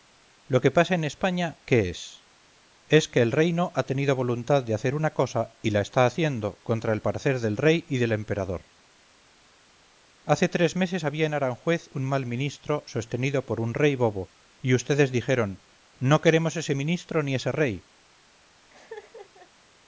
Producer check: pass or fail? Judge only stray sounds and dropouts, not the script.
fail